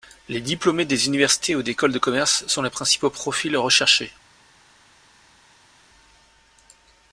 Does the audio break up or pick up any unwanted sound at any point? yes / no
no